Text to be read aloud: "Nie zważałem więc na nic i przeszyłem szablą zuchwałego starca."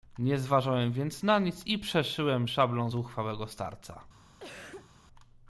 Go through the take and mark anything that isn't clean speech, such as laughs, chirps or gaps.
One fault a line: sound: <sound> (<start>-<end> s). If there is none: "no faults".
sound: cough (4.4-4.9 s)